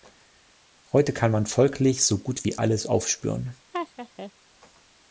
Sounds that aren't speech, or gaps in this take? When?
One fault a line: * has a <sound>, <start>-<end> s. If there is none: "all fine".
* has a laugh, 3.7-4.3 s